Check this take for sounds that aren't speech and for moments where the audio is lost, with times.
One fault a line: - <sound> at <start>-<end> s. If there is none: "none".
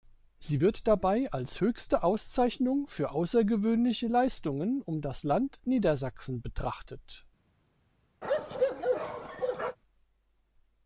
- bark at 8.2-9.8 s